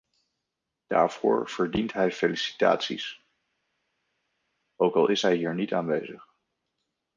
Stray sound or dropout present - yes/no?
no